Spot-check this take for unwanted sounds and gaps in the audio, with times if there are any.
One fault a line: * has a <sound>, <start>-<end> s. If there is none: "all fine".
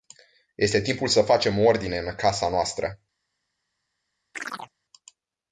* has a chirp, 4.3-4.7 s